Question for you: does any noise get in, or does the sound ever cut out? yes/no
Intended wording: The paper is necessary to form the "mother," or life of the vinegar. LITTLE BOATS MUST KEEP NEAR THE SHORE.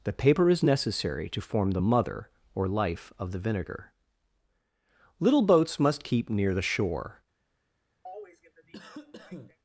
yes